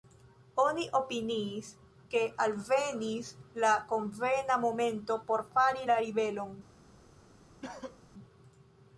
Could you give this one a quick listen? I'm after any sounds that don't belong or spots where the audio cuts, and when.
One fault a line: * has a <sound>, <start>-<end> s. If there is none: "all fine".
* has a cough, 7.6-8.0 s